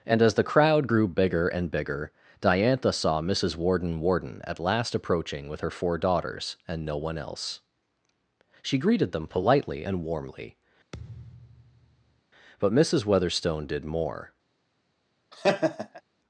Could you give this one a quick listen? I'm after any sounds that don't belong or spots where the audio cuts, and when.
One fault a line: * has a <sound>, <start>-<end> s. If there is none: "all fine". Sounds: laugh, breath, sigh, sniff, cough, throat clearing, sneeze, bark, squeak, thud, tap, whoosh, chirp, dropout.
* has a thud, 10.9-12.2 s
* has a laugh, 15.3-16.0 s